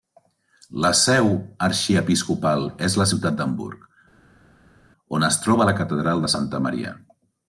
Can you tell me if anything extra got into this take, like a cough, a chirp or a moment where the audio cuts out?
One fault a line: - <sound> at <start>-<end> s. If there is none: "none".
none